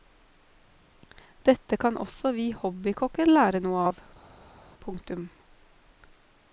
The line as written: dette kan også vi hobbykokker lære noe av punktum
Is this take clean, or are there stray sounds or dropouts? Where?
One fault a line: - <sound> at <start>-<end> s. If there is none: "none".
none